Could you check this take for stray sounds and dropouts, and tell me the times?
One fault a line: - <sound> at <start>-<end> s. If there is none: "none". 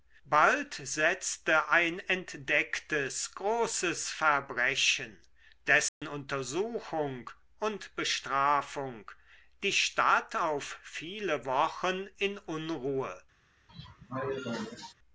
- dropout at 5.9-6.0 s
- cough at 13.7-14.9 s